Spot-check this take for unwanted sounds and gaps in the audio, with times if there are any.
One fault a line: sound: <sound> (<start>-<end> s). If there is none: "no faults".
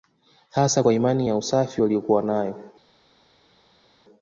no faults